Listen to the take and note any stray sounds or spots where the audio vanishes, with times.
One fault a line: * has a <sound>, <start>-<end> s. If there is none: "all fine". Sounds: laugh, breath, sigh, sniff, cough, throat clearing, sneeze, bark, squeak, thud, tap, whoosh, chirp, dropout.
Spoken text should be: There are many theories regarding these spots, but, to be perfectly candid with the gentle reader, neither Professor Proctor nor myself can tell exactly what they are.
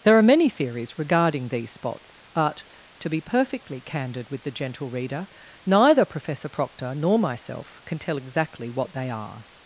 all fine